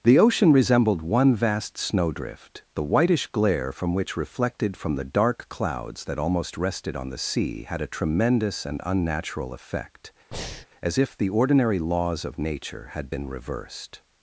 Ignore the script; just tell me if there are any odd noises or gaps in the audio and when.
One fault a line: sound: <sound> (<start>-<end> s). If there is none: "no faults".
sound: breath (10.3-10.7 s)